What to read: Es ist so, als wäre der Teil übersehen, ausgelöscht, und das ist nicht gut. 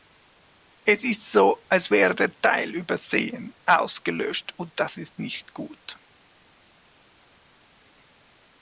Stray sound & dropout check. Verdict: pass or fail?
pass